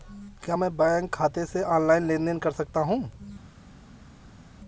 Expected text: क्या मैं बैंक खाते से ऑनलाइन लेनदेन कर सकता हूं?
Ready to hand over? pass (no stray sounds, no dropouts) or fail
pass